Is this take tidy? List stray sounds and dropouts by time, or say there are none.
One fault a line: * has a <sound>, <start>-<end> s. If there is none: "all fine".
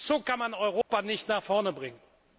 * has a dropout, 0.8-0.9 s